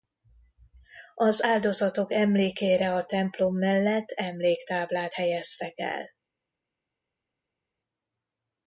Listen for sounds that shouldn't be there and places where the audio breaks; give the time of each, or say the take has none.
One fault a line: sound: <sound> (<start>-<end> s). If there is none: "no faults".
no faults